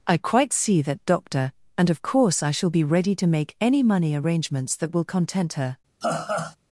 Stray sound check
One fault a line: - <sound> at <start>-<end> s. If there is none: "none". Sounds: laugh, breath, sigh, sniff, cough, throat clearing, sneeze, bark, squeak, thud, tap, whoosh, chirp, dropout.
- laugh at 6.0-6.6 s